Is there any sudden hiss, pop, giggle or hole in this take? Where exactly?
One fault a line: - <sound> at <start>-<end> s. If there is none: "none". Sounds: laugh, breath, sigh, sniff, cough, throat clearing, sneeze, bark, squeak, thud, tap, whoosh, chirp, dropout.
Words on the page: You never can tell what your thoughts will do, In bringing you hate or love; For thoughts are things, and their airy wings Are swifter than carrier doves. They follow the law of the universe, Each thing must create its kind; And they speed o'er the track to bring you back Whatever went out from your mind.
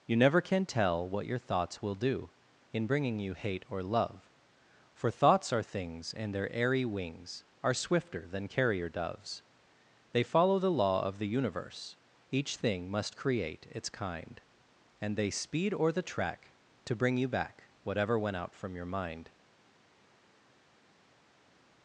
none